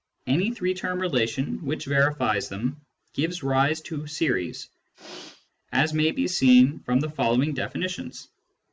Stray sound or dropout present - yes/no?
yes